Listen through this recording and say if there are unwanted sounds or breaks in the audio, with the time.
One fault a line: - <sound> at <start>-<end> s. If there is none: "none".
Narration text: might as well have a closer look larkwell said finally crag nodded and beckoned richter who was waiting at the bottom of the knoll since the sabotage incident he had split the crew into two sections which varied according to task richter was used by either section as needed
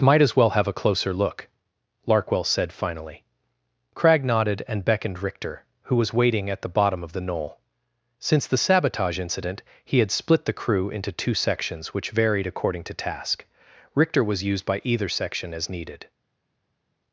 none